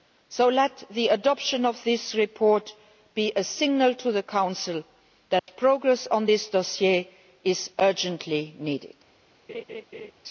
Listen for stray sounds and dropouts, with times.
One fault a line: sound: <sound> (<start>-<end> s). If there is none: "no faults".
sound: dropout (5.4-5.5 s)
sound: laugh (9.5-10.1 s)